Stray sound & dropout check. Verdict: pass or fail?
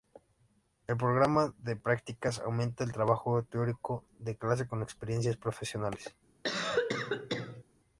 fail